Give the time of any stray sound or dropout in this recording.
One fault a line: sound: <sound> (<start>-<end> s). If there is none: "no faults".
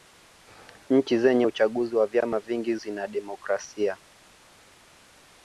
no faults